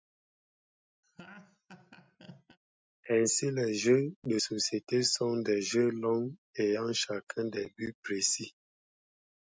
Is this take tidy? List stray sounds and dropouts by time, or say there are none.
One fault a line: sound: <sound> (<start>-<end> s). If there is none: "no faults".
sound: laugh (1.0-2.6 s)